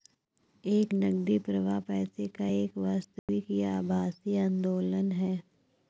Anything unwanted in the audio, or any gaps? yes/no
yes